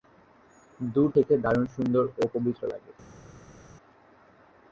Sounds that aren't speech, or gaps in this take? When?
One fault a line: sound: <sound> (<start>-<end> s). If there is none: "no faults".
no faults